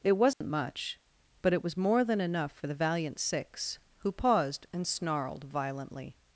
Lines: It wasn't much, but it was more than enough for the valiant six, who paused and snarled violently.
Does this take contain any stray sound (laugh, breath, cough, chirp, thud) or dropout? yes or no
yes